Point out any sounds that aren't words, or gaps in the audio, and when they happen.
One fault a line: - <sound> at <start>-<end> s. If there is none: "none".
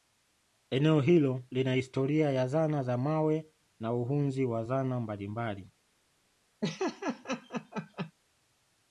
- laugh at 6.6-8.1 s